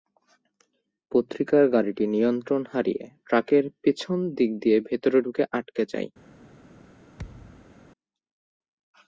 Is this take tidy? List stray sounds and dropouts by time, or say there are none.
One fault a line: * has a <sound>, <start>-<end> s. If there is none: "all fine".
* has a thud, 7.2-7.7 s